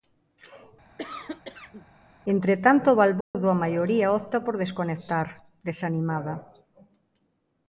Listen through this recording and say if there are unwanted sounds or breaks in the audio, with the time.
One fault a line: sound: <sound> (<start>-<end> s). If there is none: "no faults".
sound: cough (1.0-1.9 s)
sound: dropout (3.2-3.3 s)